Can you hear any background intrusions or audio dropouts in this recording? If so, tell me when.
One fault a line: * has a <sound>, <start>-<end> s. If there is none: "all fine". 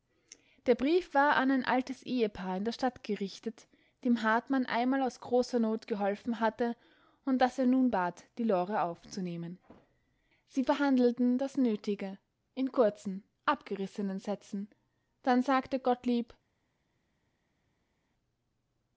all fine